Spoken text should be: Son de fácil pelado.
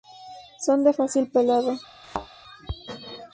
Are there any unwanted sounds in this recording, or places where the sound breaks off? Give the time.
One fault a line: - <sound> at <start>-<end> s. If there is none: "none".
- thud at 2.0-2.3 s